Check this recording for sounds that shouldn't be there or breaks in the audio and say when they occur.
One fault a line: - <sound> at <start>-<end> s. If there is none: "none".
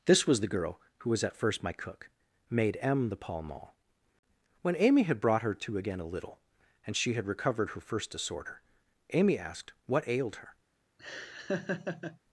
- laugh at 11.0-12.2 s